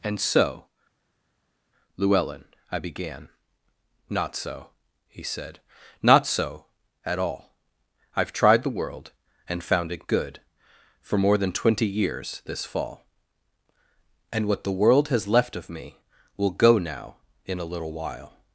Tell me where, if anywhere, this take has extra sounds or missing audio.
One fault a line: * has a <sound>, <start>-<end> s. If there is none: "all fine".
all fine